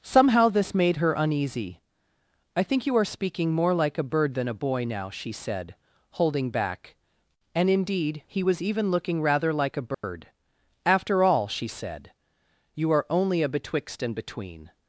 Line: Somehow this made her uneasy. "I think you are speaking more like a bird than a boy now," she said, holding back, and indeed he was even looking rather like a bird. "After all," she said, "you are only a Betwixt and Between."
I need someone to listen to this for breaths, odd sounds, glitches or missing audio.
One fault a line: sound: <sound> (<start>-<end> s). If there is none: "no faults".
sound: dropout (9.9-10.0 s)